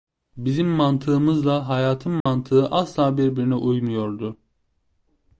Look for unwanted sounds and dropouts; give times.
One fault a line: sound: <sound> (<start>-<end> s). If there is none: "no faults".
sound: dropout (2.2-2.3 s)